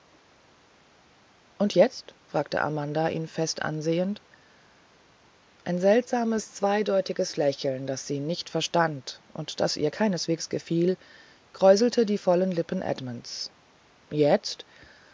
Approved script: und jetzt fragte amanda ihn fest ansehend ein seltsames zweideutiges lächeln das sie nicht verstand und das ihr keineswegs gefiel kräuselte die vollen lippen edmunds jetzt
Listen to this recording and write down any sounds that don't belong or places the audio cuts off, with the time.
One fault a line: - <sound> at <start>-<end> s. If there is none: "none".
none